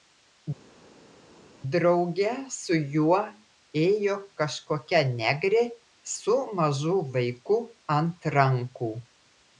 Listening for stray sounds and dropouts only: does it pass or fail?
pass